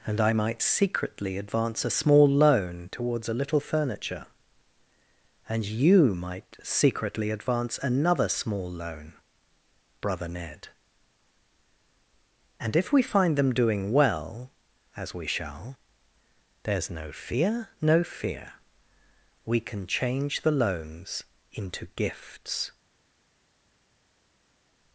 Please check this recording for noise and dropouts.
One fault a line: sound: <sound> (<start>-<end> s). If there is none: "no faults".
no faults